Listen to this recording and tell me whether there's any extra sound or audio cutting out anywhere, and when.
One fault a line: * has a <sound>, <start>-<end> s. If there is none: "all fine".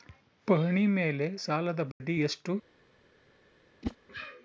* has a dropout, 1.9-2.0 s
* has a whoosh, 3.8-4.0 s